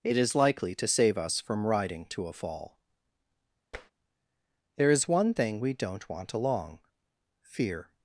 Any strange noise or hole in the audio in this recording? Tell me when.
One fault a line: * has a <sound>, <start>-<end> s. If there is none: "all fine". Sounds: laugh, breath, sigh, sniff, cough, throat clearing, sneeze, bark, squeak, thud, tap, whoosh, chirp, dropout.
* has a tap, 3.7-3.9 s